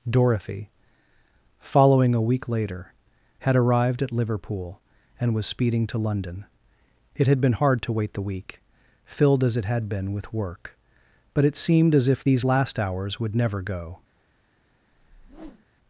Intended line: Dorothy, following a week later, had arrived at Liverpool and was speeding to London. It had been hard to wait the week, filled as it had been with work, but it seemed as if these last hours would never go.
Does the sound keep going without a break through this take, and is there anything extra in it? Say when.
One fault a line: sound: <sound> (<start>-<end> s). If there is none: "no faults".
sound: whoosh (14.9-15.7 s)